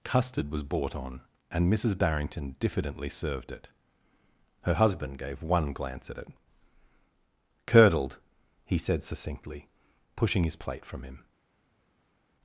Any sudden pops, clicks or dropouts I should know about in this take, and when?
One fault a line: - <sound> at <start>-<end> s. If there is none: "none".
none